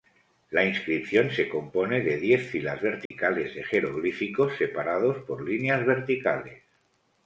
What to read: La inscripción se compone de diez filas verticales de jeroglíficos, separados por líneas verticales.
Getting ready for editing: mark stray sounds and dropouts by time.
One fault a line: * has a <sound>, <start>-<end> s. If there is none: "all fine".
* has a dropout, 3.1-3.1 s